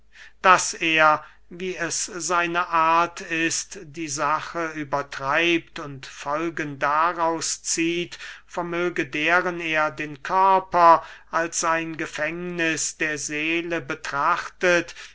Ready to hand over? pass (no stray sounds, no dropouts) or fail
pass